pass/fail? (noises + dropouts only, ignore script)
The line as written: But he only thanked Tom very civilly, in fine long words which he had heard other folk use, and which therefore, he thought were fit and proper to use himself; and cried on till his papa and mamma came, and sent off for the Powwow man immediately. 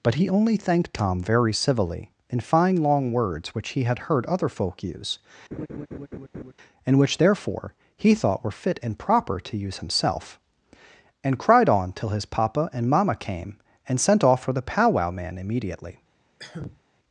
fail